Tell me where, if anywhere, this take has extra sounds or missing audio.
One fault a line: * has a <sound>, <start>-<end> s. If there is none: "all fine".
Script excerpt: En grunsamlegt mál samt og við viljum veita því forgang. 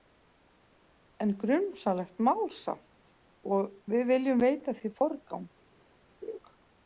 * has a laugh, 6.2-6.4 s